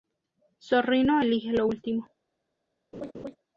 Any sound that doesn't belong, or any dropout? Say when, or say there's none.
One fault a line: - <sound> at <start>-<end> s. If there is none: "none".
- laugh at 2.9-3.4 s